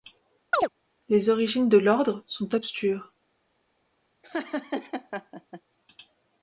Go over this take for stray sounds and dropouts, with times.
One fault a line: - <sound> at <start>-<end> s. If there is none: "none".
- chirp at 0.5-0.7 s
- laugh at 4.2-5.6 s